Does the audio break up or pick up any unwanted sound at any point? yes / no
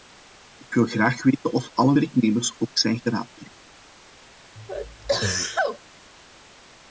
yes